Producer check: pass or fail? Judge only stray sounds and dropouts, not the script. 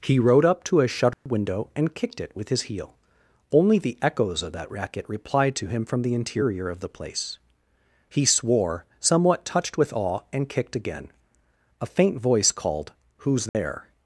fail